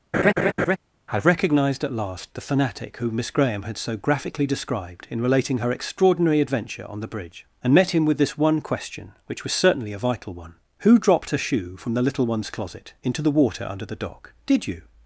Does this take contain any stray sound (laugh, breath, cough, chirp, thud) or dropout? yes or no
yes